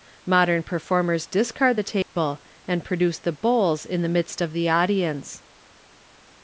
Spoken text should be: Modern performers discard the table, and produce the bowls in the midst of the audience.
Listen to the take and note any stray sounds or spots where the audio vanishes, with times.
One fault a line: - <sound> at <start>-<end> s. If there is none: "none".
- dropout at 2.0-2.2 s